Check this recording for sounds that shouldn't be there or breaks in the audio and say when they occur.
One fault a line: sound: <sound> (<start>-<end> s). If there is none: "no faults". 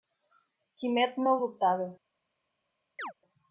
sound: chirp (3.0-3.1 s)